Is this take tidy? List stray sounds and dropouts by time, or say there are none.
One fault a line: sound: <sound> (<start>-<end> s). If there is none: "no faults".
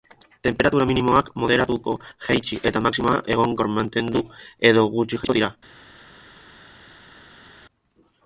no faults